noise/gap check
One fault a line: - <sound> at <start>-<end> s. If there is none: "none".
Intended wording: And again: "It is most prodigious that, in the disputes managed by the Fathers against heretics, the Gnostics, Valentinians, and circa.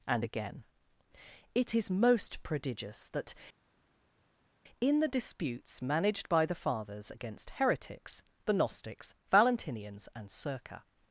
none